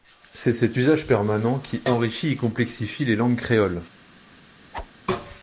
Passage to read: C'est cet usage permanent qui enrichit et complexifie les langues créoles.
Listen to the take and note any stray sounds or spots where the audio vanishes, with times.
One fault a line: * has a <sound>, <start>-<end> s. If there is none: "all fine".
* has a whoosh, 4.7-4.9 s